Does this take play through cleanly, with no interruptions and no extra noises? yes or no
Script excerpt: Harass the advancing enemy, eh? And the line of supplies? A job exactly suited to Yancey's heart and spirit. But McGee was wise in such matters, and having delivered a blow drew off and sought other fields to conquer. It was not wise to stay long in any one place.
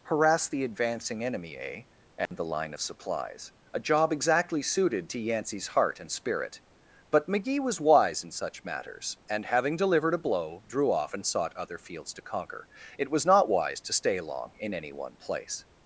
no